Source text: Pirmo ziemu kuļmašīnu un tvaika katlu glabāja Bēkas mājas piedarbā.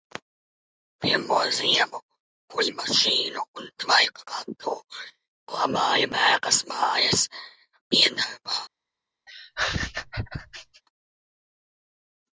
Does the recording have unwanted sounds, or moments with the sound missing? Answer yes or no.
yes